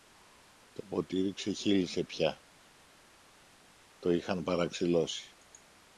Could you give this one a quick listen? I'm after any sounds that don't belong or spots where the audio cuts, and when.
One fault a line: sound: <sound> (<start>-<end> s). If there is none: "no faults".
no faults